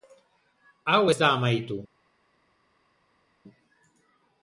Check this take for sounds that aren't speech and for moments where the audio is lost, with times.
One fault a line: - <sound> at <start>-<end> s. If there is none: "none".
none